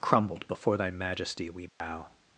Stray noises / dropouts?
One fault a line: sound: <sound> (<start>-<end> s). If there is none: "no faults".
sound: dropout (1.7-1.8 s)